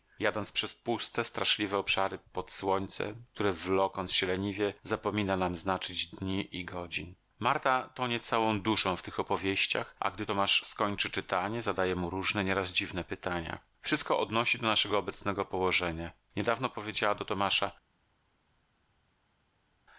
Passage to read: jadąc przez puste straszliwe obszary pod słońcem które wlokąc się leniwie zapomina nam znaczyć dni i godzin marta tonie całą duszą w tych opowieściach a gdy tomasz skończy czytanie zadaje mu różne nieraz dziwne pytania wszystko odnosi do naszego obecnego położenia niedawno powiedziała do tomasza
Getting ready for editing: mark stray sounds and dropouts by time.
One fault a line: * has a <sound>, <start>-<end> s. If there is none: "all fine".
all fine